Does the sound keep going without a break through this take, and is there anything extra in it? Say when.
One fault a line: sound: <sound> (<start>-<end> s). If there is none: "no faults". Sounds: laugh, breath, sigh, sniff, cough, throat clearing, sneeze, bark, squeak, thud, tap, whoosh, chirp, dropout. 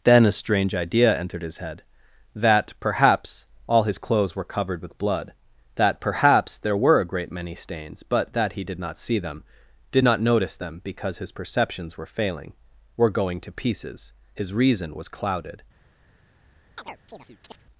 sound: chirp (16.8-17.6 s)